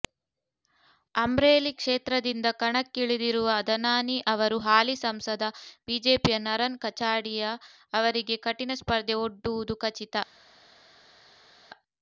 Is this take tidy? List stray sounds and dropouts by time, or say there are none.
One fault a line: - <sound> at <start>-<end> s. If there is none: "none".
none